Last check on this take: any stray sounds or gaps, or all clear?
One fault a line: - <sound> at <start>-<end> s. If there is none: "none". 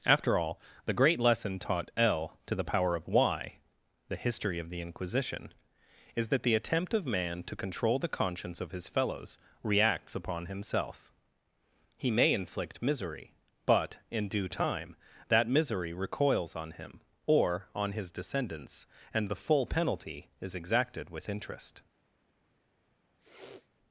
- sniff at 23.2-23.7 s